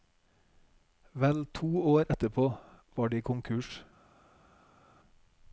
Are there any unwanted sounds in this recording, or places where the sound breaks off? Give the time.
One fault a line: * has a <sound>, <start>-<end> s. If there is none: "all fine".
all fine